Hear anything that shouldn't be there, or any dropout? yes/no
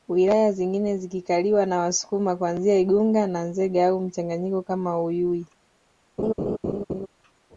yes